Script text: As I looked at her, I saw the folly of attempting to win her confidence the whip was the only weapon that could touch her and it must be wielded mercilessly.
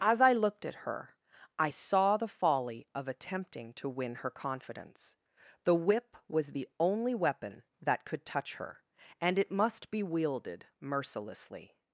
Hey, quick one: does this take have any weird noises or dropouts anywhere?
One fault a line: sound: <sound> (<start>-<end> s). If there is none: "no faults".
no faults